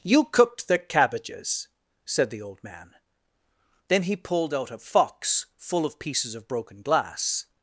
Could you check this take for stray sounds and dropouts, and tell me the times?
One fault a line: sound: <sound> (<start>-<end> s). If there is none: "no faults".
no faults